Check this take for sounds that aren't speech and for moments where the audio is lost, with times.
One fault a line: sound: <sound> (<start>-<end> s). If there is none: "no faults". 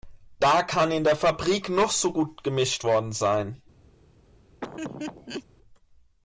sound: laugh (4.6-5.4 s)